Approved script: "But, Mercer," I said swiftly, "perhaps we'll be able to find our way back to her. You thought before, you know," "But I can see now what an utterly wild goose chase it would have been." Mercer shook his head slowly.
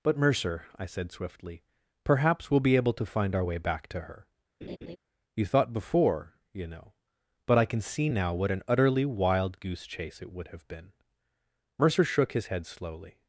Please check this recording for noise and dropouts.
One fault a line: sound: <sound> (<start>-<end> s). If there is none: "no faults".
sound: laugh (4.6-5.0 s)